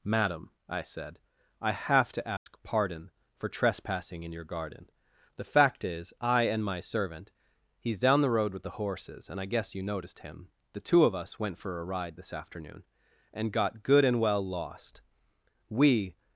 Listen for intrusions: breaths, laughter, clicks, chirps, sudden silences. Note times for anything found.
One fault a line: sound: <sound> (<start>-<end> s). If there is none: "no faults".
sound: dropout (2.4-2.5 s)